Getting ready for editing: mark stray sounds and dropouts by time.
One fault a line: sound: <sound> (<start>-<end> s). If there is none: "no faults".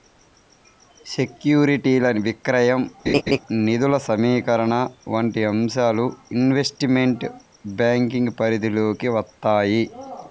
sound: laugh (3.1-3.4 s)